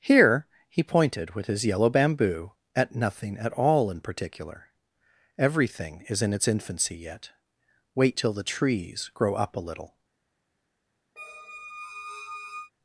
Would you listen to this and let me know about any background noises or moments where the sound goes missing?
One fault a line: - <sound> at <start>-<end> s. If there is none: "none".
- squeak at 11.2-12.7 s